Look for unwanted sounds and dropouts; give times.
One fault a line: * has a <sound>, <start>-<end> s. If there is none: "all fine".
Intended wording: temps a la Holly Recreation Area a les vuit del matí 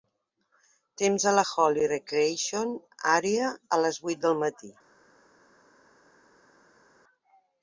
all fine